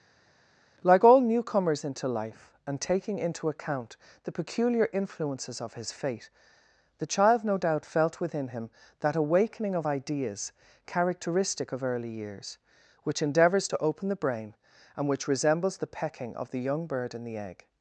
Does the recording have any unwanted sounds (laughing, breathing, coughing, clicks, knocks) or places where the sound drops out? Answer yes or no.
no